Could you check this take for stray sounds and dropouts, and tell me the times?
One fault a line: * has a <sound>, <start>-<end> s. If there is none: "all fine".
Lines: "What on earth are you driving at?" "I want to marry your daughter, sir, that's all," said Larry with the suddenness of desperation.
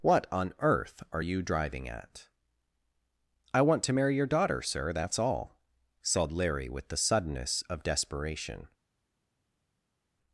all fine